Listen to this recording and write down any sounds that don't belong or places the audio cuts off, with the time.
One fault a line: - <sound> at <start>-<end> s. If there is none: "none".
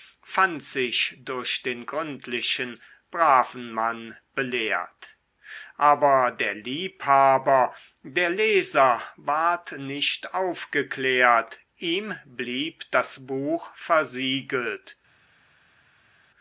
none